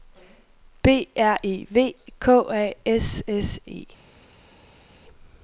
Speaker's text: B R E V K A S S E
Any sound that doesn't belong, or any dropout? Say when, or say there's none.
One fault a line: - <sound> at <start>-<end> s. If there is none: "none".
none